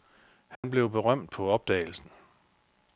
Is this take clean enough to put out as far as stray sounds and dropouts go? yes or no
no